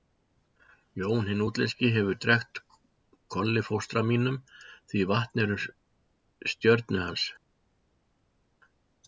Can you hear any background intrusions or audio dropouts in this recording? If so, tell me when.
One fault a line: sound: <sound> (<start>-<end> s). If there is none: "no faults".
no faults